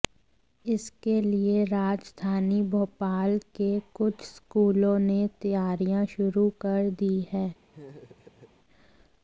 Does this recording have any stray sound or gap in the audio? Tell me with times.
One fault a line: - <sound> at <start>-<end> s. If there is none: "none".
- laugh at 7.7-8.5 s